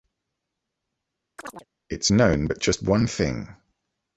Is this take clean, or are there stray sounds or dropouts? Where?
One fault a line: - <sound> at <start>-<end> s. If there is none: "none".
- chirp at 1.4-1.7 s